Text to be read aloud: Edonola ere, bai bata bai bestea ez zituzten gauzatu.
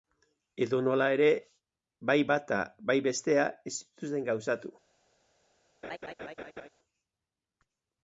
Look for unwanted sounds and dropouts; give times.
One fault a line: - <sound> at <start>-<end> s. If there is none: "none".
- laugh at 5.8-6.7 s